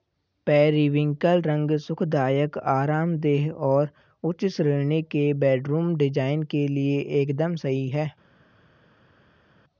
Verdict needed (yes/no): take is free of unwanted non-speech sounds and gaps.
yes